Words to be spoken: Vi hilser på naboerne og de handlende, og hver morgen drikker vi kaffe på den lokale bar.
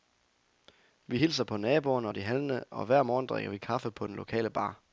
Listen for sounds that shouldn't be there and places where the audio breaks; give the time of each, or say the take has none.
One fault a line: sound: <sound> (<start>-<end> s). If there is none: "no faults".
no faults